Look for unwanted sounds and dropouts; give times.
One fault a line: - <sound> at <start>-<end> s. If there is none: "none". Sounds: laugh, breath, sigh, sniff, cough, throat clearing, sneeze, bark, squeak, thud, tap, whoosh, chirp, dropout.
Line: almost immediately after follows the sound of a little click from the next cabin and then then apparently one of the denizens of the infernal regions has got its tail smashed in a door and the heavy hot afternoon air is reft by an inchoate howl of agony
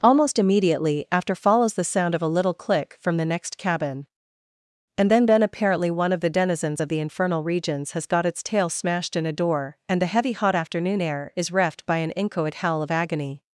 none